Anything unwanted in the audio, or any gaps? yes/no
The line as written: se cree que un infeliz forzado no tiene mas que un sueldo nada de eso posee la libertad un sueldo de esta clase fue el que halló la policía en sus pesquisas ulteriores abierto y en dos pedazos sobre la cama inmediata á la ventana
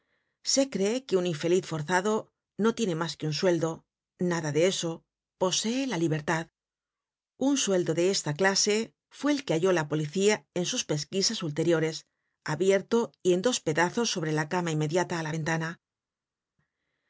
no